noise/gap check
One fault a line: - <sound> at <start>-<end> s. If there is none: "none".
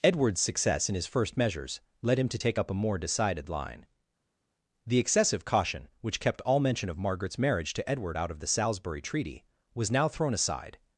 none